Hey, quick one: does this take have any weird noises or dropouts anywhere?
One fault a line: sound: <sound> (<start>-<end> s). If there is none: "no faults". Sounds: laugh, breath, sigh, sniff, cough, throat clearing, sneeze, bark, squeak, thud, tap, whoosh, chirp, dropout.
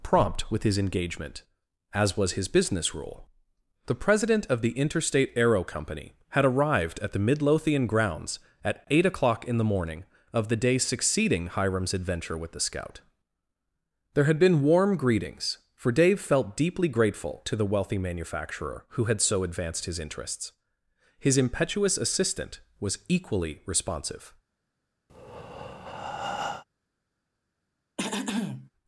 sound: breath (25.1-26.6 s)
sound: throat clearing (28.0-28.7 s)